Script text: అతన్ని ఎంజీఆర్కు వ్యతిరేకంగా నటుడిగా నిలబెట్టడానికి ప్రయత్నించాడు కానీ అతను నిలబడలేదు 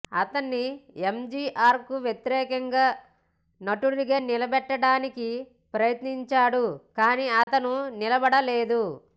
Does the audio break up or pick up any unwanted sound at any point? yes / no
yes